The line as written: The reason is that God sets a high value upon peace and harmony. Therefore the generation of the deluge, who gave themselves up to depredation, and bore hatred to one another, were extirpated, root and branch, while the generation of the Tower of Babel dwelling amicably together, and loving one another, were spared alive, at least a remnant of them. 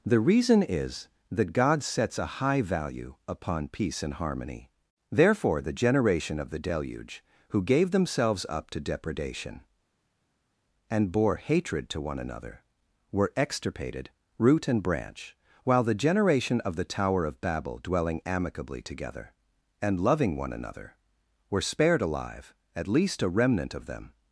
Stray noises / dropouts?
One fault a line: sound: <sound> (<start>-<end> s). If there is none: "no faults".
no faults